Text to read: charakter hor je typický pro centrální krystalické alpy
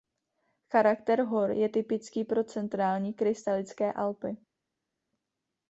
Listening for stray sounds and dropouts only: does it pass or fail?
pass